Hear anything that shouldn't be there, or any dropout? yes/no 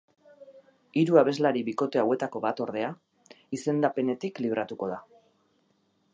no